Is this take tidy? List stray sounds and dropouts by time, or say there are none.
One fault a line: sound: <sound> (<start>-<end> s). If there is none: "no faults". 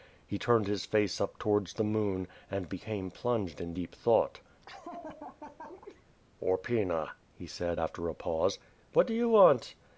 sound: laugh (4.6-6.1 s)